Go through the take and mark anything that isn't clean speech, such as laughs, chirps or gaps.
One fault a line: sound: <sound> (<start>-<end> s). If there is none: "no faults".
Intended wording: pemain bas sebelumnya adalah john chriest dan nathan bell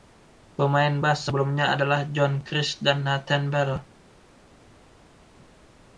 no faults